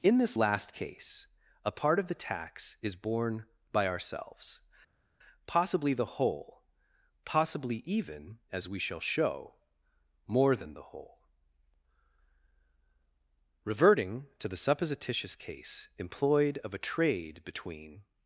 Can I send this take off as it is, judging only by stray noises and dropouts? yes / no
yes